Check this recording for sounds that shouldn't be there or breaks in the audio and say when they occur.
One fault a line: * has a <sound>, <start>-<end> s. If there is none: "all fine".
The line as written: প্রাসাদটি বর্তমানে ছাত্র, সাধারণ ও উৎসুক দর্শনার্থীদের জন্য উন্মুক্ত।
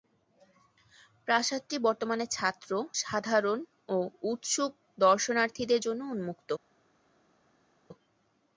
all fine